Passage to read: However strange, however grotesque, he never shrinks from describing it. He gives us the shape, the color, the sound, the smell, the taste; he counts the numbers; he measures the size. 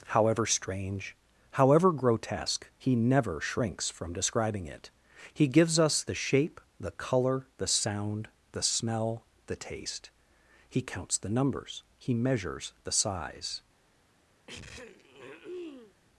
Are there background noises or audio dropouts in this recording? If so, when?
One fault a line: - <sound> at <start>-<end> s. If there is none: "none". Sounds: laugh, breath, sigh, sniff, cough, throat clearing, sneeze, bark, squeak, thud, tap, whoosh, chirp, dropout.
- throat clearing at 14.5-15.9 s